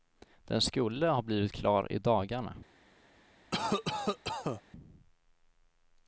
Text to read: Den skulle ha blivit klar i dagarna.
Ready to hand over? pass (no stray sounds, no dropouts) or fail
fail